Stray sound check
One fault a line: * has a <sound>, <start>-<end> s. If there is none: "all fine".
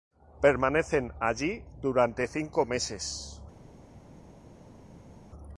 all fine